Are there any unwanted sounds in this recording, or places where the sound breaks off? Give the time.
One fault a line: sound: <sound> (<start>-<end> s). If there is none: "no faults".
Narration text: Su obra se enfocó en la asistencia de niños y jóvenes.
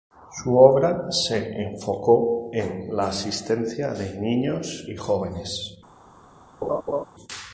sound: laugh (6.6-7.0 s)